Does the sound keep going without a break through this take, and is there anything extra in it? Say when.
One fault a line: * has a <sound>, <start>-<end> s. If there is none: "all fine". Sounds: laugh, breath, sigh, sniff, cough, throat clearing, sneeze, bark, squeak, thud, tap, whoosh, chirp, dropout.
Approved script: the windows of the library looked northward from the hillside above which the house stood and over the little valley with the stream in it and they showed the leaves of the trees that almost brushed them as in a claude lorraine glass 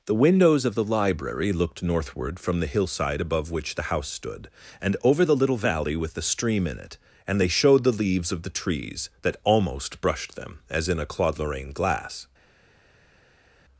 all fine